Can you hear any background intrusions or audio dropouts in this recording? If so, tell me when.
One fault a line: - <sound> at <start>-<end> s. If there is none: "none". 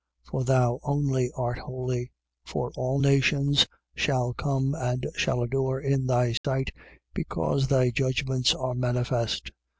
- dropout at 6.4-6.4 s